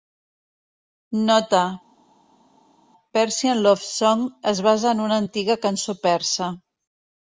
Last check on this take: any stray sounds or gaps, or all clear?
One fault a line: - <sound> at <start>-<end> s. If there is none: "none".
none